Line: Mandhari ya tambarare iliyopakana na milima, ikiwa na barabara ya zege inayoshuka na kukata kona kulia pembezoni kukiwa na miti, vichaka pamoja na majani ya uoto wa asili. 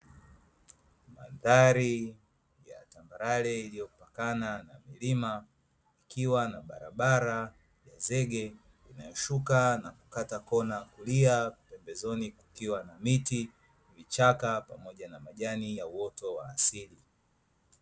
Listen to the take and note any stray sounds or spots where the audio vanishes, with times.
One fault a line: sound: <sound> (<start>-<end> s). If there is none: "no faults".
no faults